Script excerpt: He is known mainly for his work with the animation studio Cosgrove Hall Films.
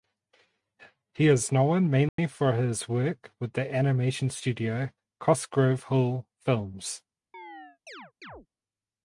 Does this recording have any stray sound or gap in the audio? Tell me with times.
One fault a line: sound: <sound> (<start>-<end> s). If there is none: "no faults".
sound: dropout (2.1-2.2 s)
sound: chirp (7.3-8.5 s)